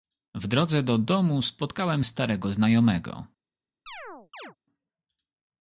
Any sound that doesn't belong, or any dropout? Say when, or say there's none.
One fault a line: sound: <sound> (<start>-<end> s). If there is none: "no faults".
sound: chirp (3.9-4.6 s)